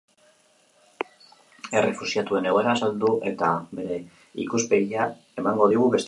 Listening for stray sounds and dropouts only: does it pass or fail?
pass